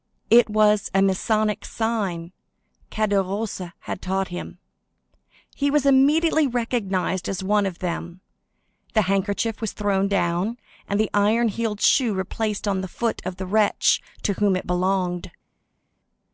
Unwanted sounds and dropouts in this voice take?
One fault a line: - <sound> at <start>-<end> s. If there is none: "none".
none